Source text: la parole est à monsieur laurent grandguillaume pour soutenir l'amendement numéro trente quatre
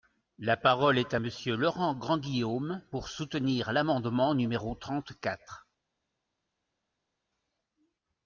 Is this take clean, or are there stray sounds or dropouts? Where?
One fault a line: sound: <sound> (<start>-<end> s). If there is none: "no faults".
no faults